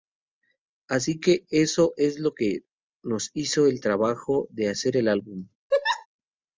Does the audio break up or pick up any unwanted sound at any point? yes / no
yes